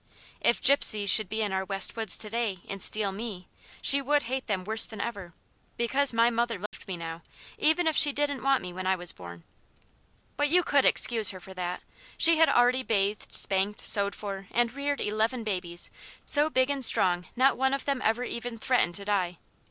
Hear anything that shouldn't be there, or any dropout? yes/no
yes